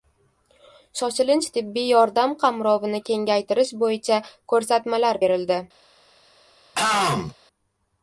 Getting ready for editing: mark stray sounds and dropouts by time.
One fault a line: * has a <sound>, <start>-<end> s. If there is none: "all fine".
* has a throat clearing, 6.7-7.3 s